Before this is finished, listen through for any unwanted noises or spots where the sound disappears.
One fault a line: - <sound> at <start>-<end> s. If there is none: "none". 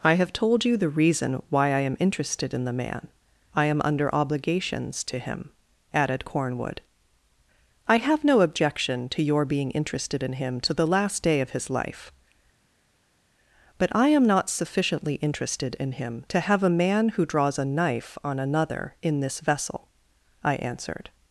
none